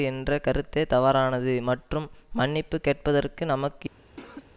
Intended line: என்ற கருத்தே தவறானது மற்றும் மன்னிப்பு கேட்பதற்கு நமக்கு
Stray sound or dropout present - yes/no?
yes